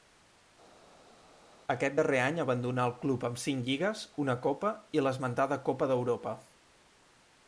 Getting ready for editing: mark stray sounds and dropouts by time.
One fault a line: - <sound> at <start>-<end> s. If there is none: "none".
none